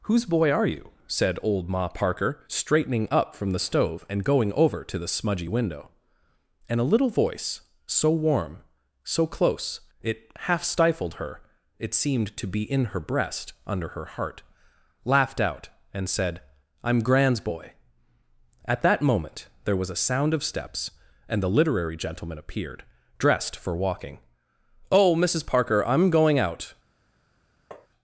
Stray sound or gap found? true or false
true